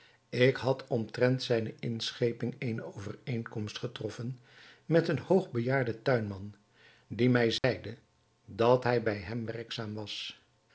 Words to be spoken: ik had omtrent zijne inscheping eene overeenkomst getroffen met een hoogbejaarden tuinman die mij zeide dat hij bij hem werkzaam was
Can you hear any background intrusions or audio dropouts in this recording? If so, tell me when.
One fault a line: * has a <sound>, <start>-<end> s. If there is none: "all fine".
* has a dropout, 7.6-7.6 s